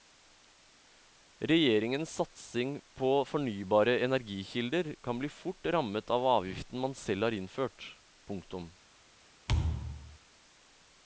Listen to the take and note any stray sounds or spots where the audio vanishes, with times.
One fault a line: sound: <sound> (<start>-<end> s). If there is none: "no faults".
sound: thud (9.5-10.2 s)